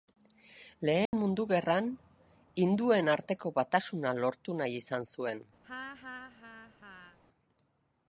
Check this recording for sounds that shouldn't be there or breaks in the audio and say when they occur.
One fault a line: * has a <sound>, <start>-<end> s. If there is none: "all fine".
* has a dropout, 1.1-1.1 s
* has a laugh, 5.6-7.2 s